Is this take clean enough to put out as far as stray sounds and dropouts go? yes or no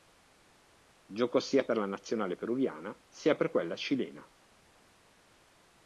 yes